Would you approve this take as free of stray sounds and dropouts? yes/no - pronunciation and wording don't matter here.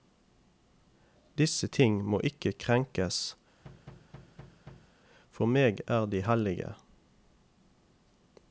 no